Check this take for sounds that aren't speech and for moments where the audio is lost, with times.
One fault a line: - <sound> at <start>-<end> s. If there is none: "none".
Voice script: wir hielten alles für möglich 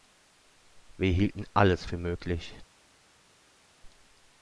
none